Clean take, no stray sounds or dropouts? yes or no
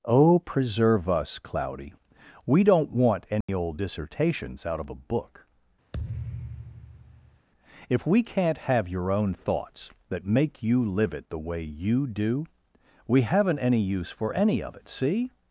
no